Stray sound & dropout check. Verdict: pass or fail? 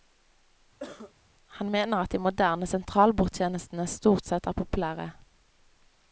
fail